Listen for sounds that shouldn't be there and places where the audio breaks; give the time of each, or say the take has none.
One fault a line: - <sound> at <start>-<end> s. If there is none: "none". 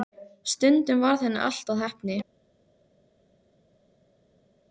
none